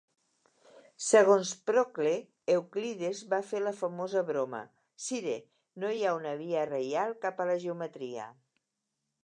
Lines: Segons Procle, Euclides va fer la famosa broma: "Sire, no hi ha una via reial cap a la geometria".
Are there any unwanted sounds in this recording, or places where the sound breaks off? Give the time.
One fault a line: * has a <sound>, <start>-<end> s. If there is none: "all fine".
all fine